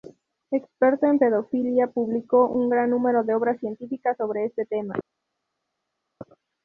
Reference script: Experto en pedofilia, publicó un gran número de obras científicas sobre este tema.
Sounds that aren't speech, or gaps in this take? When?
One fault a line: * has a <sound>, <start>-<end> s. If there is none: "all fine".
all fine